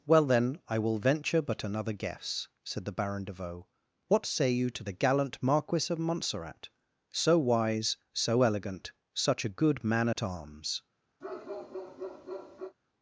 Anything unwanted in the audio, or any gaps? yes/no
yes